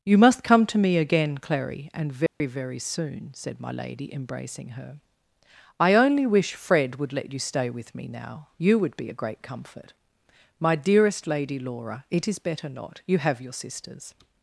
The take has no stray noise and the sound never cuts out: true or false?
false